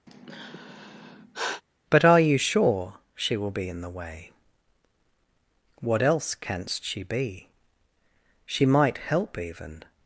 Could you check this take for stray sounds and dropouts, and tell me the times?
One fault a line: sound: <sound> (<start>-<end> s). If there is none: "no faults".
sound: sigh (0.1-1.6 s)